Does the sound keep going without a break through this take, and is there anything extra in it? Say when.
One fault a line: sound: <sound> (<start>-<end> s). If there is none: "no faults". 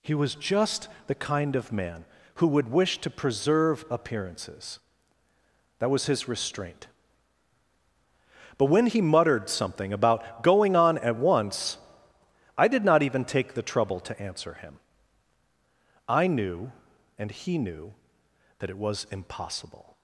no faults